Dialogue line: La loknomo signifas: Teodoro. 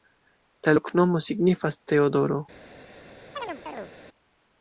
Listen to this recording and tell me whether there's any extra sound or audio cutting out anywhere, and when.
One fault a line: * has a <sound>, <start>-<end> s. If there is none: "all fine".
* has a chirp, 3.4-3.9 s